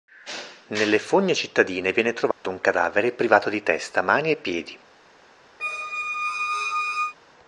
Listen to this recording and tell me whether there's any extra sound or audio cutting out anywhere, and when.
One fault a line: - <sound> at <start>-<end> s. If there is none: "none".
- dropout at 2.3-2.4 s
- squeak at 5.6-7.1 s